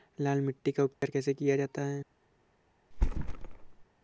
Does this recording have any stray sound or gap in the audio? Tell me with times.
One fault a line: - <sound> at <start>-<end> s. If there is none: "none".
- dropout at 0.9-1.0 s
- thud at 2.9-3.8 s